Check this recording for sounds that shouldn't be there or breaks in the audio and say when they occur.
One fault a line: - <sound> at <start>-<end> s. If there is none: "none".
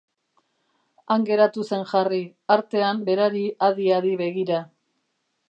none